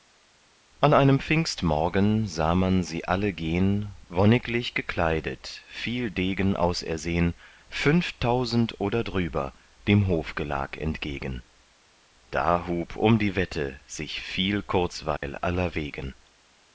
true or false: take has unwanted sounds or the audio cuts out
true